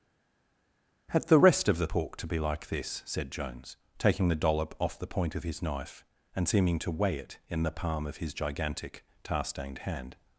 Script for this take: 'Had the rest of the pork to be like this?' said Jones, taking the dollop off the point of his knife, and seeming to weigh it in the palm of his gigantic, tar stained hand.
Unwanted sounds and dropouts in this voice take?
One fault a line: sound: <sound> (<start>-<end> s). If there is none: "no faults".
no faults